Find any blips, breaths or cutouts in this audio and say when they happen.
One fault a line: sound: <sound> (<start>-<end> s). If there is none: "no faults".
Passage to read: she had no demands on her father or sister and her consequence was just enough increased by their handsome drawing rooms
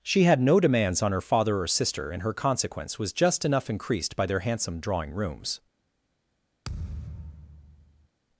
sound: thud (6.6-8.1 s)